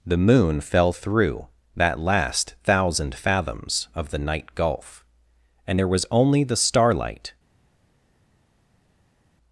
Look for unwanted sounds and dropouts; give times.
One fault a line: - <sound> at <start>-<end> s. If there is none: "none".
none